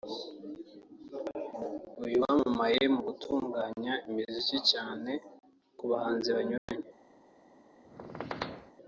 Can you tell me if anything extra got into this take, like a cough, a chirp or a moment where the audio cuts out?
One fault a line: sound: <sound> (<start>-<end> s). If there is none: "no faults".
sound: dropout (6.6-6.7 s)
sound: squeak (7.8-8.7 s)